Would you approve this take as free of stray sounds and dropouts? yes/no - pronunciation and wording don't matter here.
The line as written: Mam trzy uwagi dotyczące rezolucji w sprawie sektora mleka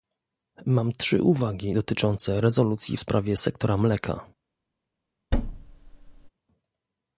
no